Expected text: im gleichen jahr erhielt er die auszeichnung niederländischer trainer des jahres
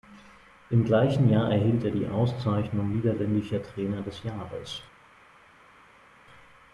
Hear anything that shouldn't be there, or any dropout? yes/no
no